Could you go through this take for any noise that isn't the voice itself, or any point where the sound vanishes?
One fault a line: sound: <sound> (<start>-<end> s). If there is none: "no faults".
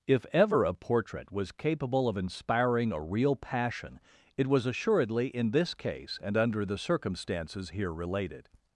no faults